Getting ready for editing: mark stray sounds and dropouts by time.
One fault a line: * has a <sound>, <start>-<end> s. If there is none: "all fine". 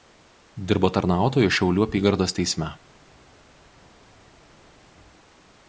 all fine